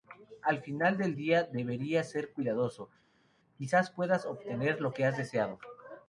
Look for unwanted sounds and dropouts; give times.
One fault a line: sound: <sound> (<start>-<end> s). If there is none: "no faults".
no faults